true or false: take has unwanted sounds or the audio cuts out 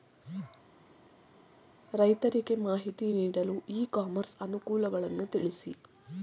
false